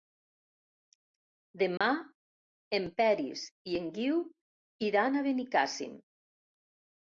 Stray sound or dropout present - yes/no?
yes